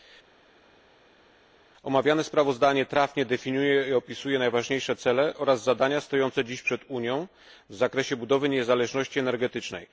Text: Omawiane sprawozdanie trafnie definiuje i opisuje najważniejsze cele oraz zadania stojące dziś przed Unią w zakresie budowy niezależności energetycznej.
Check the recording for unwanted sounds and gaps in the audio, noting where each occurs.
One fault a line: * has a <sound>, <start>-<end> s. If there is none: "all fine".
all fine